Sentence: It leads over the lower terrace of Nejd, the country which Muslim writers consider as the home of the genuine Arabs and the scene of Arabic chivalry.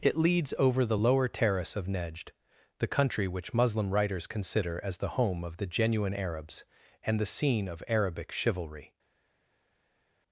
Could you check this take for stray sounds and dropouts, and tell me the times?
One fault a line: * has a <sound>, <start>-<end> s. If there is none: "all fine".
all fine